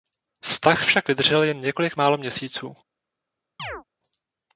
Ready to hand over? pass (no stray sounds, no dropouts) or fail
fail